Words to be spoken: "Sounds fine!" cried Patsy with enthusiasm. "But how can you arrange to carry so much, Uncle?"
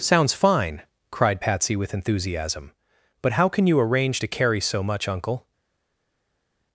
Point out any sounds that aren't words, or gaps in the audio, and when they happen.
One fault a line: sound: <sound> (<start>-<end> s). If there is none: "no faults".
no faults